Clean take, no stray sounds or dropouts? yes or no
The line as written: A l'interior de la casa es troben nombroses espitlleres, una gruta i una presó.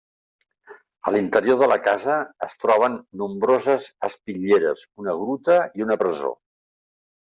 yes